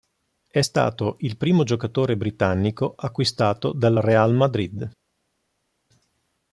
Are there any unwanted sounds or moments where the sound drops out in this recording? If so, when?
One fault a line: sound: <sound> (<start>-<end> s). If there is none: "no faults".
no faults